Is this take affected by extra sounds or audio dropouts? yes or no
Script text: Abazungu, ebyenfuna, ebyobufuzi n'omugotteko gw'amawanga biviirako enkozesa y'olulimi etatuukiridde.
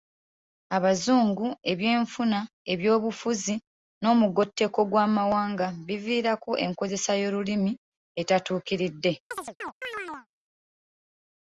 yes